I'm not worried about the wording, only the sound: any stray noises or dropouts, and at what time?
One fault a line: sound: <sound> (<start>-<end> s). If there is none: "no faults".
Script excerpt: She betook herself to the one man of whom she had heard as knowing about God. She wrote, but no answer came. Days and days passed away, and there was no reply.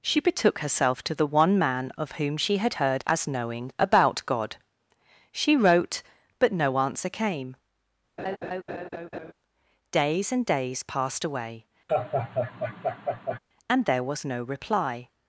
sound: laugh (8.2-9.3 s)
sound: laugh (11.9-13.4 s)